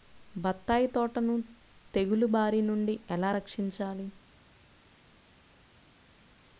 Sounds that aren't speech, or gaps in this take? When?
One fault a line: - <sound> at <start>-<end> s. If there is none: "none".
none